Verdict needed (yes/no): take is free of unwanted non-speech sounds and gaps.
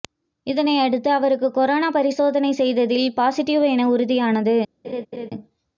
no